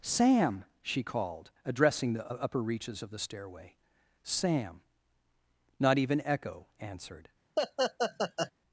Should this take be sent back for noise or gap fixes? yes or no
yes